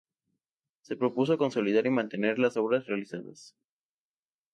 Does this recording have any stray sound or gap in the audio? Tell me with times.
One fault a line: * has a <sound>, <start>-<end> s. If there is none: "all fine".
all fine